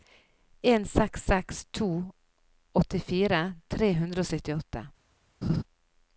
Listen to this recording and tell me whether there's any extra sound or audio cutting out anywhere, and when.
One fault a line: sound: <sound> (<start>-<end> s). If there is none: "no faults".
sound: laugh (5.4-5.6 s)